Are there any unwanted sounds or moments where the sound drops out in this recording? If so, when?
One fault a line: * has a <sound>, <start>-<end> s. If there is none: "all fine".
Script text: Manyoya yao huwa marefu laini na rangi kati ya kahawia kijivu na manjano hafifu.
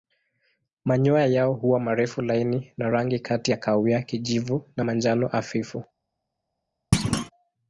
* has a thud, 6.9-7.3 s